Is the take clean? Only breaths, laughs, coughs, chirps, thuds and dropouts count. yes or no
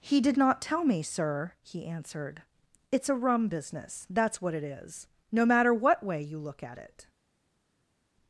yes